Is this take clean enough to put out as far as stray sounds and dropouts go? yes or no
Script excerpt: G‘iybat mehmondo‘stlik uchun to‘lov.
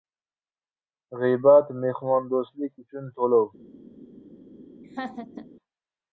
no